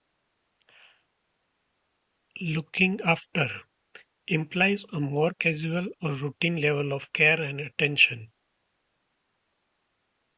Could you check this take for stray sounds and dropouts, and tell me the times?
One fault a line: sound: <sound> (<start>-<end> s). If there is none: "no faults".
no faults